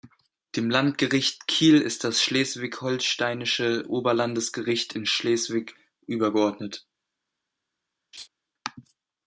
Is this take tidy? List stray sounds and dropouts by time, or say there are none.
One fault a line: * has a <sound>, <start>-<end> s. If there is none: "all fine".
* has a laugh, 8.1-8.3 s